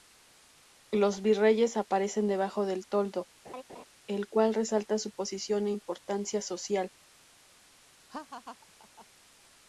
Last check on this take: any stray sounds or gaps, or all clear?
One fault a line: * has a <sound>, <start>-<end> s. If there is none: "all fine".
* has a laugh, 3.4-3.9 s
* has a laugh, 8.1-9.1 s